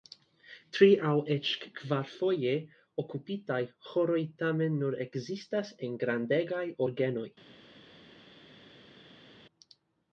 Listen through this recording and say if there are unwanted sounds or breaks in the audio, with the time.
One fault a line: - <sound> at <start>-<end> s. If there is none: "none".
none